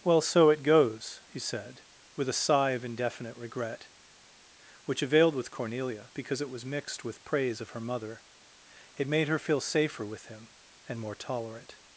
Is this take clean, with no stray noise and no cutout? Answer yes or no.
yes